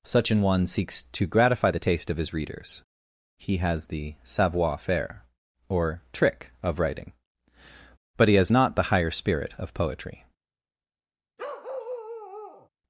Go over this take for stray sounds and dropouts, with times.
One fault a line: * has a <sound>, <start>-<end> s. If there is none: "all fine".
* has a bark, 11.4-12.7 s